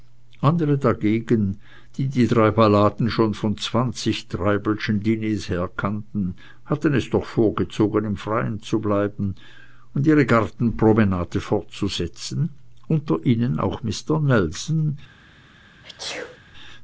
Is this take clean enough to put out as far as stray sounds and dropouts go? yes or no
no